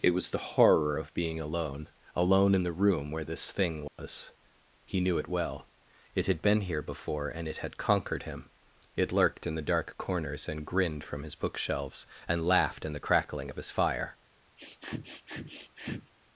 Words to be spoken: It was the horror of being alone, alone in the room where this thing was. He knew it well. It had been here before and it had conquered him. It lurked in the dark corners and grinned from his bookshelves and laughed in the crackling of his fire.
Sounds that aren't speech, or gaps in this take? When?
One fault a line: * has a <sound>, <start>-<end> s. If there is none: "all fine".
* has a dropout, 3.9-4.0 s
* has a sniff, 14.6-16.1 s